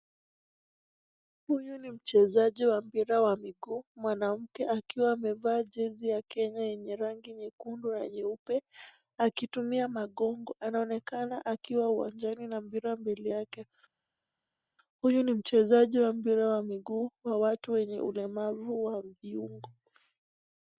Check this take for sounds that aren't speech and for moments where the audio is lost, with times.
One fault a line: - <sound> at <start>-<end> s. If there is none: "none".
none